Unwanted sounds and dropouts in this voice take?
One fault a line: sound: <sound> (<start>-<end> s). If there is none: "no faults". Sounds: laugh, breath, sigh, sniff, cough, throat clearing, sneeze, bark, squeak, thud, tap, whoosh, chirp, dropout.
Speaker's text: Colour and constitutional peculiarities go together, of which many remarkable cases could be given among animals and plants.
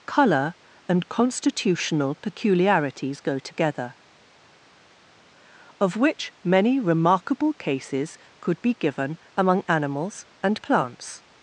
no faults